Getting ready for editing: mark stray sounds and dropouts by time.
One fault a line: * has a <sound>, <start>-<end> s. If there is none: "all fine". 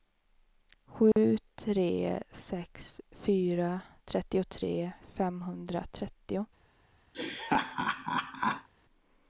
* has a dropout, 1.1-1.2 s
* has a laugh, 7.1-8.7 s